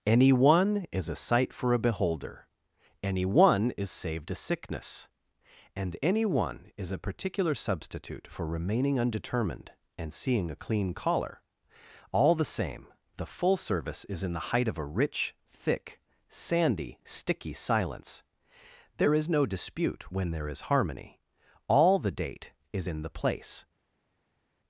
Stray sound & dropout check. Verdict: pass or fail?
pass